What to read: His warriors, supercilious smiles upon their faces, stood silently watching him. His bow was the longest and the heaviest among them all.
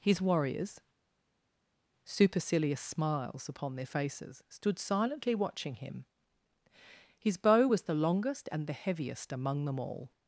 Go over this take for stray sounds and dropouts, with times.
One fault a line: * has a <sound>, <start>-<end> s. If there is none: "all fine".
all fine